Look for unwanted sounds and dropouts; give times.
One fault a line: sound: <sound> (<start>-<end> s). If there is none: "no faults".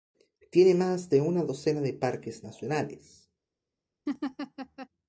sound: laugh (4.1-4.9 s)